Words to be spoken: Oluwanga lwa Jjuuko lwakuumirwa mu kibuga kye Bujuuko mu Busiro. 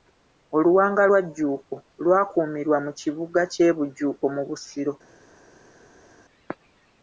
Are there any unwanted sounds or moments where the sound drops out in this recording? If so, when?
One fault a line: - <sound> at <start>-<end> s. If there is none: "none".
none